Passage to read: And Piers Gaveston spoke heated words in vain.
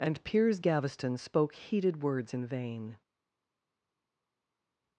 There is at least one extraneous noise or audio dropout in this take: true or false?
false